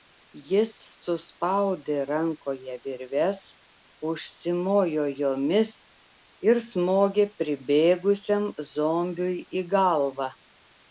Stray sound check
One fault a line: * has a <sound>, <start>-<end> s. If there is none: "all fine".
all fine